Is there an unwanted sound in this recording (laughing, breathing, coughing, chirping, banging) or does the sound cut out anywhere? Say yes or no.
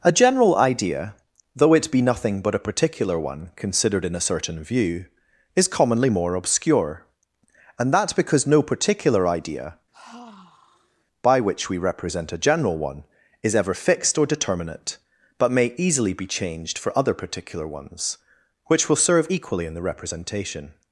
yes